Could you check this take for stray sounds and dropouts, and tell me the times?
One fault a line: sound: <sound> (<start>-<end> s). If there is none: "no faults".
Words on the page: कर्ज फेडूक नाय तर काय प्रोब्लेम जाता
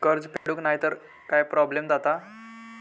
sound: dropout (0.4-0.5 s)